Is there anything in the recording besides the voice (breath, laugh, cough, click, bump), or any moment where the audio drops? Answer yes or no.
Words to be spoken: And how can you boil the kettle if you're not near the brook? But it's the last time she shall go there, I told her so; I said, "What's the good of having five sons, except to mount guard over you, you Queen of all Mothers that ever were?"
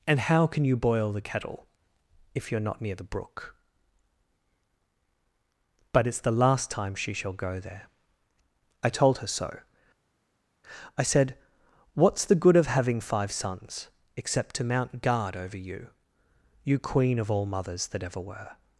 no